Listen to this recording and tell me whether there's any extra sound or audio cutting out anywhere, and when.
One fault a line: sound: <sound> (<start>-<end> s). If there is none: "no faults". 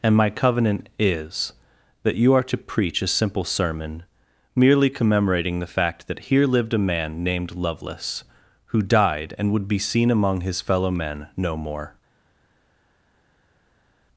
no faults